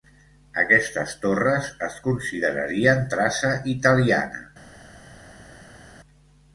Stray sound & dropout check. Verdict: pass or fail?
pass